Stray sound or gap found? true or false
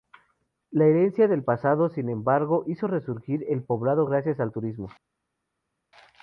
false